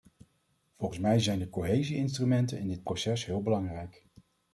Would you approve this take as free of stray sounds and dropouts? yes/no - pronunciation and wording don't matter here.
yes